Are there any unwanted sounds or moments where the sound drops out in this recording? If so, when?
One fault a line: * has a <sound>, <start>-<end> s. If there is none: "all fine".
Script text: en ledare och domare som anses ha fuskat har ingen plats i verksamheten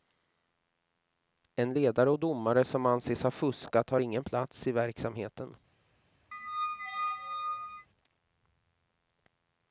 * has a squeak, 6.3-7.9 s